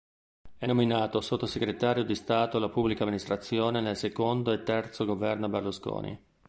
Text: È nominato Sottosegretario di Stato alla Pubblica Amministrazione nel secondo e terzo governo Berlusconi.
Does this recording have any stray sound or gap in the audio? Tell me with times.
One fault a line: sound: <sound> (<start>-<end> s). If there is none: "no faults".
no faults